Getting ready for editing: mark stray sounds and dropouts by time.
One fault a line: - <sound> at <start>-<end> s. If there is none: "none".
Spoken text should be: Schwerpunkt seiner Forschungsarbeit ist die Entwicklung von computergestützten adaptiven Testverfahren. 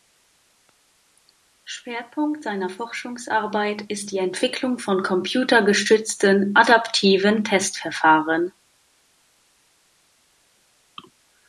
none